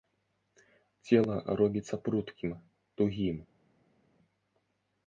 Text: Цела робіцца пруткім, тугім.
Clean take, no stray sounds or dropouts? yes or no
yes